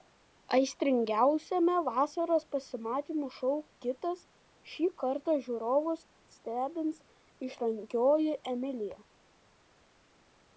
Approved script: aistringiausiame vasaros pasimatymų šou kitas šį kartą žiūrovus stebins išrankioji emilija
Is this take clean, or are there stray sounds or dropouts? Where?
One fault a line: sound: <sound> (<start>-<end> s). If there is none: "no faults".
no faults